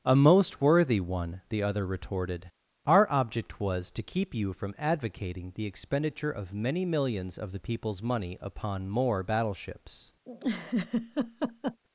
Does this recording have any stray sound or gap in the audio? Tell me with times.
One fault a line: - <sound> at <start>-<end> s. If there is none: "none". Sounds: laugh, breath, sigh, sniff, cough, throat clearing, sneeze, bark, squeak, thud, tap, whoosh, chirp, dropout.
- laugh at 10.2-11.8 s